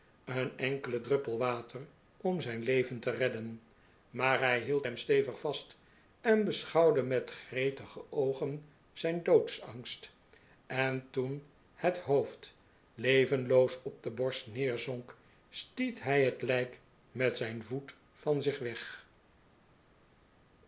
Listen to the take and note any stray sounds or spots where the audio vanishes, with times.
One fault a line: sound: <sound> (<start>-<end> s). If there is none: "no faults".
no faults